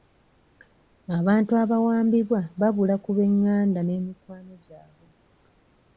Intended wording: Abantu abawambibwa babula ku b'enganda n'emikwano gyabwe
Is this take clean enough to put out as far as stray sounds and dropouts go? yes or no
yes